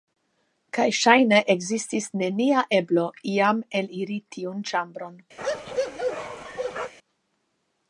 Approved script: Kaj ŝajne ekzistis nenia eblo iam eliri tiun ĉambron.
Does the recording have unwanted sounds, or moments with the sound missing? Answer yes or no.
yes